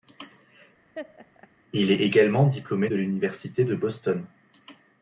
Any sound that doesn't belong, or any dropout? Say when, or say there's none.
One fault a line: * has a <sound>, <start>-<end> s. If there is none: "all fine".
* has a laugh, 0.9-1.5 s